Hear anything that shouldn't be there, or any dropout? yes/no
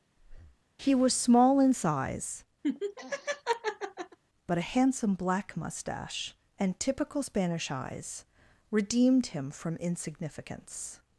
yes